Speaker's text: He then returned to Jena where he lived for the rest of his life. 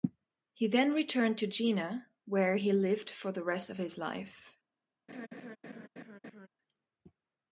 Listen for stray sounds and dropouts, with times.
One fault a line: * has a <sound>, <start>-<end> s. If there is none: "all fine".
* has a laugh, 5.1-6.5 s